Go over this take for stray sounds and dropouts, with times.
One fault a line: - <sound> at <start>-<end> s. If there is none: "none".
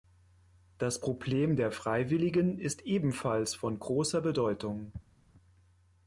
none